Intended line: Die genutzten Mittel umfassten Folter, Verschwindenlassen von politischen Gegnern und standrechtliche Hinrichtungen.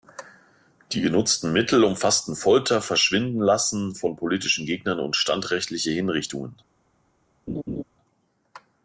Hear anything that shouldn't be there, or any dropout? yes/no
yes